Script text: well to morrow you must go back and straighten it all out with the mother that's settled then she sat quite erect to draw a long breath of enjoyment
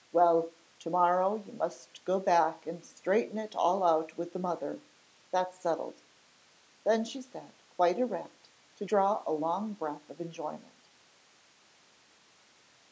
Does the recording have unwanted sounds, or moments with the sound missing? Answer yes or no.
no